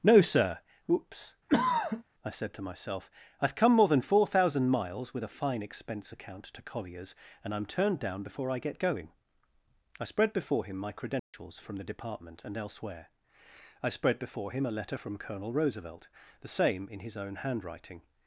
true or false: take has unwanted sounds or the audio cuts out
true